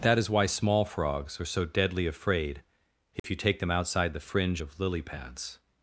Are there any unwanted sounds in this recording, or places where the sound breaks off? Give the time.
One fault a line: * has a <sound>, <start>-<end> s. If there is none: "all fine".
* has a dropout, 3.2-3.2 s